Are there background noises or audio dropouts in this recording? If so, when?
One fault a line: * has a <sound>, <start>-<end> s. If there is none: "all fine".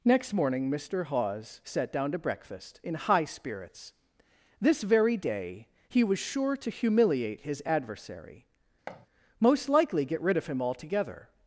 * has a thud, 8.9-9.1 s